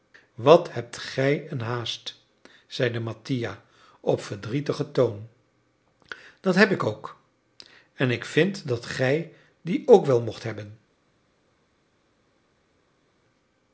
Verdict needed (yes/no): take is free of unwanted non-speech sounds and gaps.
yes